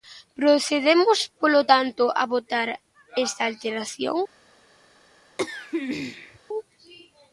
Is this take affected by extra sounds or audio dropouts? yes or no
yes